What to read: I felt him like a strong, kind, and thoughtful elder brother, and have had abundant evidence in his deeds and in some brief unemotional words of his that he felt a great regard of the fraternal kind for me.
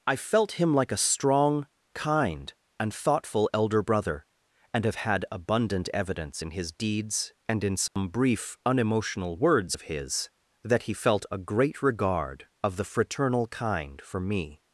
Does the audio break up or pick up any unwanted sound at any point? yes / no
yes